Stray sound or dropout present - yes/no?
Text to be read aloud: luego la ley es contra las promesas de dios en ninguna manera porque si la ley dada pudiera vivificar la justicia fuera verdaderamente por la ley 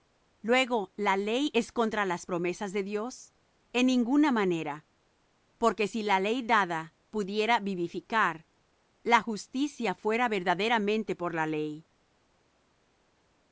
no